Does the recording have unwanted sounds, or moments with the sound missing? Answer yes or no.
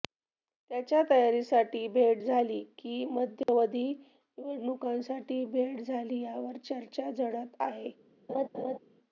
yes